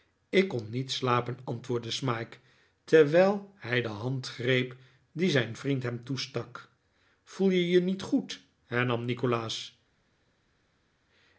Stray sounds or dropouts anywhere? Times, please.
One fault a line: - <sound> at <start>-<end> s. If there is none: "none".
none